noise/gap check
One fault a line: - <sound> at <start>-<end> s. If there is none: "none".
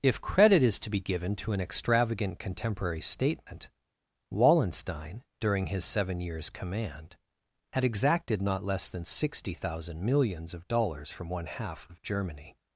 none